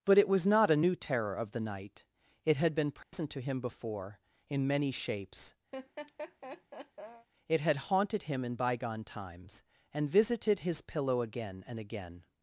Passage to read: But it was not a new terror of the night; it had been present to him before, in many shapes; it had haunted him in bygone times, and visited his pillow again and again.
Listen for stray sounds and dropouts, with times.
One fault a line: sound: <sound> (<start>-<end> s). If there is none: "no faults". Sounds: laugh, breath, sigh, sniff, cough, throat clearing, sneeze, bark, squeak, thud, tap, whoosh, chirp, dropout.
sound: dropout (3.0-3.1 s)
sound: laugh (5.7-7.3 s)